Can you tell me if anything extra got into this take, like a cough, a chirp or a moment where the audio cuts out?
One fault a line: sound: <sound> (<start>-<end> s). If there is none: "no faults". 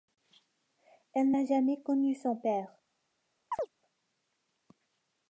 sound: chirp (3.5-3.7 s)